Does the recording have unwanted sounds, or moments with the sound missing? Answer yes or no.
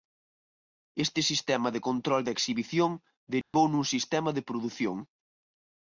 yes